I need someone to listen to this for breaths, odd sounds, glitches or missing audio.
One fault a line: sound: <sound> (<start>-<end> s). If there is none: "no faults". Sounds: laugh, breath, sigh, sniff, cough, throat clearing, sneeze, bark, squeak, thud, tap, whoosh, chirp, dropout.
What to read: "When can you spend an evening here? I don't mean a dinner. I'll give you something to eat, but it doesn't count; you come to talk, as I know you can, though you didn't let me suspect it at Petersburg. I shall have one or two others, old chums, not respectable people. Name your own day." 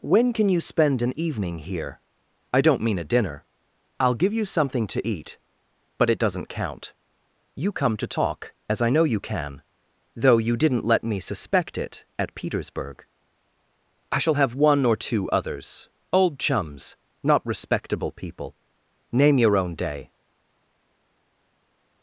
no faults